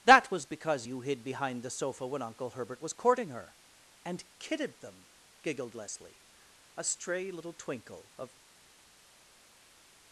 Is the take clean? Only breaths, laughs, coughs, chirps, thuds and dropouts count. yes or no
yes